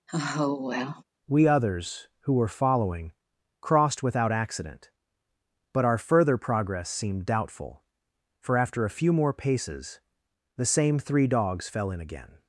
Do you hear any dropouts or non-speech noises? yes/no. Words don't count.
yes